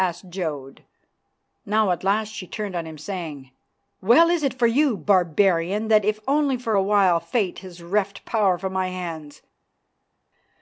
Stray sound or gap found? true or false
false